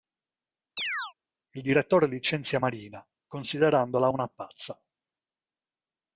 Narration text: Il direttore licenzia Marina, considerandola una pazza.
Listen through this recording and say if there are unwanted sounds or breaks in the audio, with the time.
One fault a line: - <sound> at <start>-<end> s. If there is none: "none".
- chirp at 0.8-1.1 s